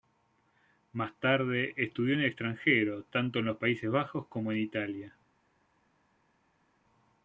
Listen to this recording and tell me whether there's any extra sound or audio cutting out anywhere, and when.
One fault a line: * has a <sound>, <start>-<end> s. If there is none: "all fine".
all fine